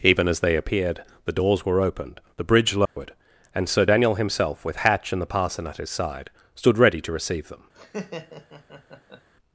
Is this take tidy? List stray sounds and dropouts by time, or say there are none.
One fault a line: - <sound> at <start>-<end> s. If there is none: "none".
- dropout at 2.9-3.0 s
- laugh at 7.7-9.3 s